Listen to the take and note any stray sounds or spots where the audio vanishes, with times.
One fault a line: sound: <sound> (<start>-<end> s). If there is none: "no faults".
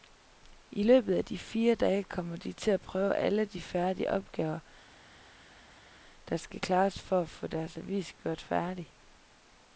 no faults